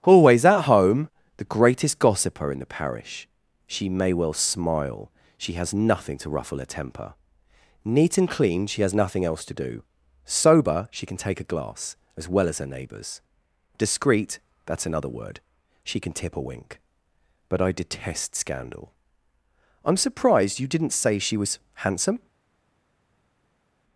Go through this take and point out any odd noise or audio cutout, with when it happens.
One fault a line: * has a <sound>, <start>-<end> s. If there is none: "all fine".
all fine